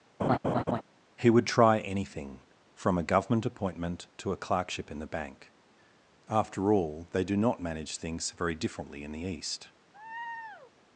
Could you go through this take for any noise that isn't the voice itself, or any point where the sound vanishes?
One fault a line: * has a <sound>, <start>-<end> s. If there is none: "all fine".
* has a laugh, 0.2-0.8 s
* has a laugh, 9.9-10.7 s